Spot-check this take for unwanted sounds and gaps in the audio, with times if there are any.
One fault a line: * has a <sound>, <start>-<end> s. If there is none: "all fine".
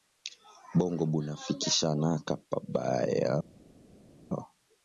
all fine